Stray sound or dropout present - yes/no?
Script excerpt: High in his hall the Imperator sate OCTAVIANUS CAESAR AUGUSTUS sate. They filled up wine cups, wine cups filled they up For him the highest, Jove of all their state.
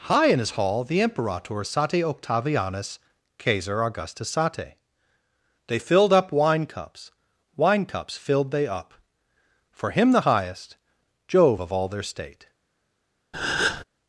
yes